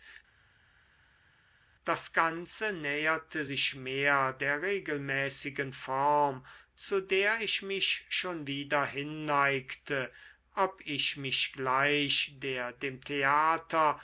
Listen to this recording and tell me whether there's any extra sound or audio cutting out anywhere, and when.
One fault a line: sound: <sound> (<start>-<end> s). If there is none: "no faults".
no faults